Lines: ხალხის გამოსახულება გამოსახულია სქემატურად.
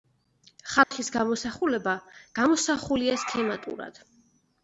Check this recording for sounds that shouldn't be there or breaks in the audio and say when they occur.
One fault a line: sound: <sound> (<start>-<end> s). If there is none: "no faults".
sound: dropout (0.8-0.9 s)